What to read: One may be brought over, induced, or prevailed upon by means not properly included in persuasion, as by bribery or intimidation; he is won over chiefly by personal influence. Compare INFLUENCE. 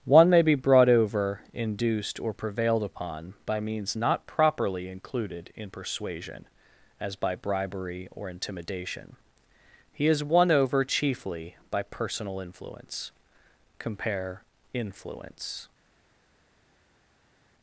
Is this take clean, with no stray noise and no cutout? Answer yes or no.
yes